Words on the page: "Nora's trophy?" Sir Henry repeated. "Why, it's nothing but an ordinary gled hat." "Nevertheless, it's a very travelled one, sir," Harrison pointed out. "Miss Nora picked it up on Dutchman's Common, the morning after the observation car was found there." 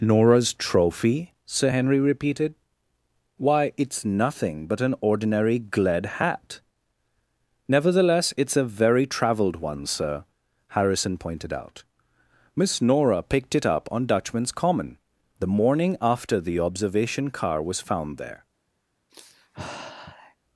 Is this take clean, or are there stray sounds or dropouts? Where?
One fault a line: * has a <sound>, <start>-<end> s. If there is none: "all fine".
* has a sigh, 19.1-20.4 s